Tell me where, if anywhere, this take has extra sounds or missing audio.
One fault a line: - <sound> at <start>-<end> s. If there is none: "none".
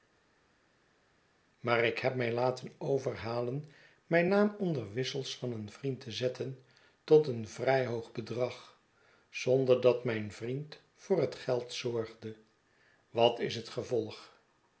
none